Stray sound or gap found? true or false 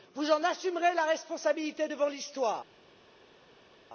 false